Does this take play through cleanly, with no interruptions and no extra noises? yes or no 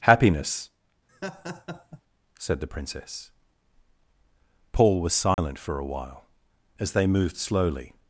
no